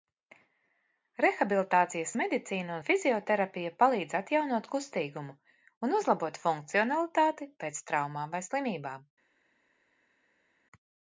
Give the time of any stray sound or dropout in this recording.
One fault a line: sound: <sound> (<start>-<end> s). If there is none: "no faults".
no faults